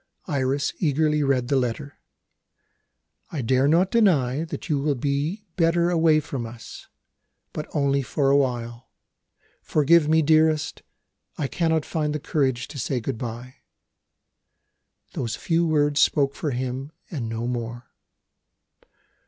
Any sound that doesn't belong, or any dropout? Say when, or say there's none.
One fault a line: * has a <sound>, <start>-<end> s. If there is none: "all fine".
all fine